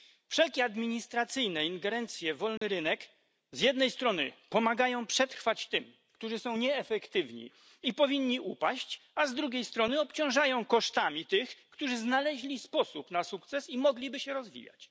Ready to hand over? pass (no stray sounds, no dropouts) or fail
fail